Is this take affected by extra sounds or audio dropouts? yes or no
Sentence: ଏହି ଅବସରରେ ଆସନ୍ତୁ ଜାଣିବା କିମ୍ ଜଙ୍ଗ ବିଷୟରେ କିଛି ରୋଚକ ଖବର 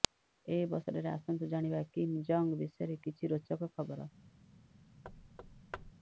yes